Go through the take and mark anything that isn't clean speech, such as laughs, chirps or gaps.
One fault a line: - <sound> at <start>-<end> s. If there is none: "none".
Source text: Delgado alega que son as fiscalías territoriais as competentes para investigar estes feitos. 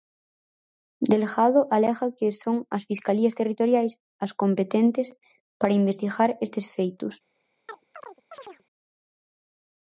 - chirp at 7.7-8.6 s